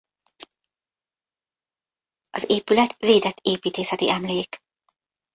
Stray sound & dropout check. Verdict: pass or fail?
pass